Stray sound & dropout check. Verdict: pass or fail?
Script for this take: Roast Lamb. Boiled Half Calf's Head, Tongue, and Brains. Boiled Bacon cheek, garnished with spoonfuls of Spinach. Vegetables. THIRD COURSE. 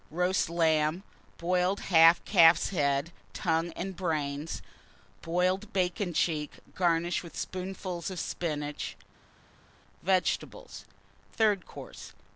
pass